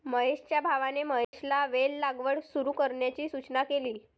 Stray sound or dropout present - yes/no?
yes